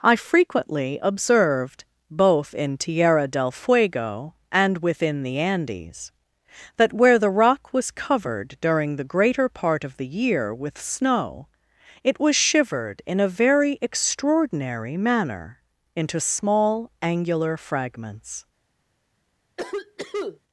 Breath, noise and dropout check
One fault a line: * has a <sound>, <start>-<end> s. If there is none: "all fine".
* has a cough, 19.6-20.4 s